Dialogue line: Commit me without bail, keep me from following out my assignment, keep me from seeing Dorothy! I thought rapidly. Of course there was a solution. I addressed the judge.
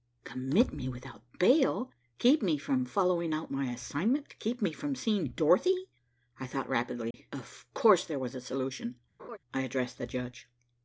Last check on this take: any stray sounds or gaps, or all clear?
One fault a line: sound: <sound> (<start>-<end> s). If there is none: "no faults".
sound: dropout (7.1-7.1 s)
sound: laugh (9.2-9.4 s)